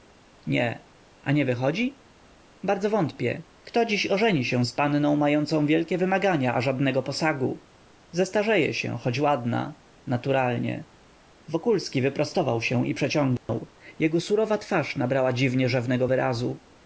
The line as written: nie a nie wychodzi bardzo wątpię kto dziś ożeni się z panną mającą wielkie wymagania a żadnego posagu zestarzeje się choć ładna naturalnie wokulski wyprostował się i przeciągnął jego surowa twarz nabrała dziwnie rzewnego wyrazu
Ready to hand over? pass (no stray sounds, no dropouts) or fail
fail